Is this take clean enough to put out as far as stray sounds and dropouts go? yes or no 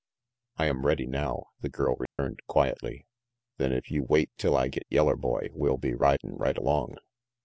no